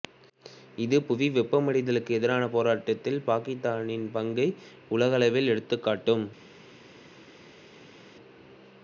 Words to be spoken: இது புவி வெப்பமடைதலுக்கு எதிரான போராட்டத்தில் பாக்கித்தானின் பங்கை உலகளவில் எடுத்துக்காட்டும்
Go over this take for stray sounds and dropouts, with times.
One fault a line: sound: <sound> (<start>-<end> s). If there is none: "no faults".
no faults